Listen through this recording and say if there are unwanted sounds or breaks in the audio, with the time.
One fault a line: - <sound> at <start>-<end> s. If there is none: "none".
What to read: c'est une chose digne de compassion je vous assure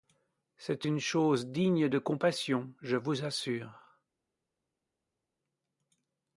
none